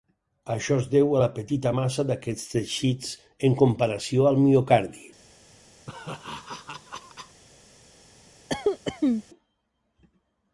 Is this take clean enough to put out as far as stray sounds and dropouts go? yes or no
no